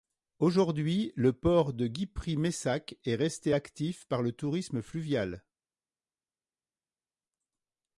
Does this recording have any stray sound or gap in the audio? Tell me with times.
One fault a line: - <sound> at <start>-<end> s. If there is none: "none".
none